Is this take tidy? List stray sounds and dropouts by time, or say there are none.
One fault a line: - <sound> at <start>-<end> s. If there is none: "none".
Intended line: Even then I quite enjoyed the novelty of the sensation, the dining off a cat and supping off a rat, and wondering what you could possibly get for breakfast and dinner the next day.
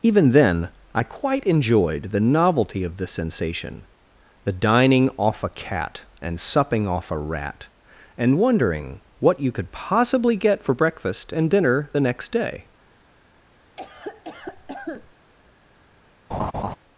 - cough at 13.8-15.1 s
- laugh at 16.3-16.8 s